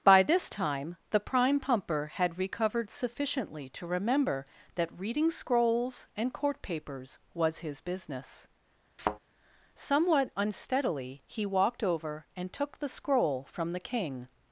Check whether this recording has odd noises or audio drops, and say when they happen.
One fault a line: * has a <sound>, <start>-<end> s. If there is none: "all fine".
* has a thud, 9.0-9.2 s